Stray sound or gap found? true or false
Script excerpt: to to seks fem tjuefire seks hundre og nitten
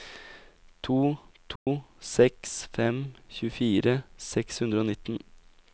true